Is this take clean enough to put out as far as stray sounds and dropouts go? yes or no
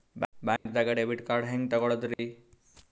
no